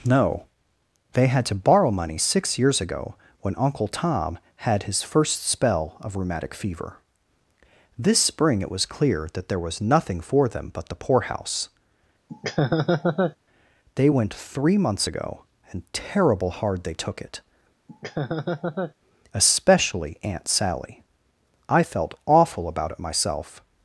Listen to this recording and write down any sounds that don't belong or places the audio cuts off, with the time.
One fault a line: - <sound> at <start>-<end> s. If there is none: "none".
- laugh at 12.3-13.4 s
- laugh at 17.9-18.9 s